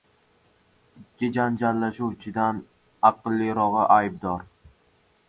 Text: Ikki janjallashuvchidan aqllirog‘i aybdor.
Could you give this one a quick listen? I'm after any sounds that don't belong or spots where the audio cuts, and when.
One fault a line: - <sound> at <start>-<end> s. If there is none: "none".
none